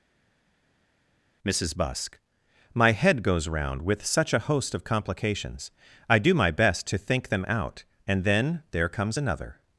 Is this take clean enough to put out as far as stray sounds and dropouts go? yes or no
yes